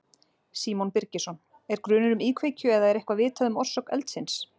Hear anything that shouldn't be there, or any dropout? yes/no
no